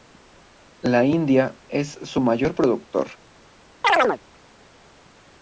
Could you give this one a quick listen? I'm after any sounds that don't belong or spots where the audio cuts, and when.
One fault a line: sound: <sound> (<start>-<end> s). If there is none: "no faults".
sound: chirp (3.8-4.2 s)